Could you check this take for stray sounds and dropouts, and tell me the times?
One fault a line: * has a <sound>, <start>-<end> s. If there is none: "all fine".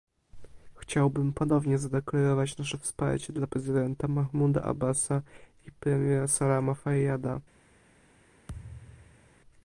* has a thud, 8.5-9.3 s